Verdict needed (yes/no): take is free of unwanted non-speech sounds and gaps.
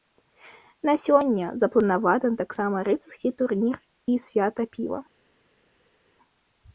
yes